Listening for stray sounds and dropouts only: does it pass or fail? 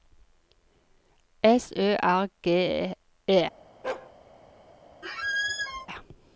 fail